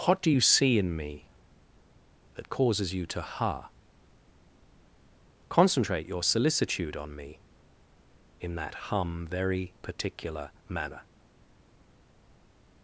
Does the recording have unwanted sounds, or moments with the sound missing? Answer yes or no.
no